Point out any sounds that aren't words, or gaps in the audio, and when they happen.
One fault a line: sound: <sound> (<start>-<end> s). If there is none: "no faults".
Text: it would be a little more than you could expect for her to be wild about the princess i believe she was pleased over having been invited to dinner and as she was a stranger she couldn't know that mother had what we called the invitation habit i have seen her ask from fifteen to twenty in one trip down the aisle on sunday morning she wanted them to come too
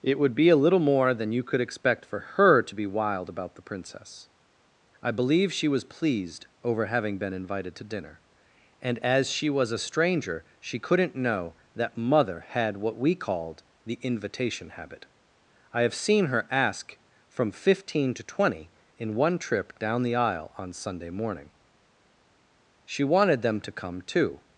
no faults